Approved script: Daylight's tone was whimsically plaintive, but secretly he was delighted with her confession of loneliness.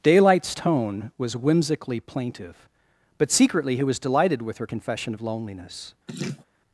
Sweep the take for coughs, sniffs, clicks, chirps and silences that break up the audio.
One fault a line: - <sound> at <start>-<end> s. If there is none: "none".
- laugh at 6.1-6.5 s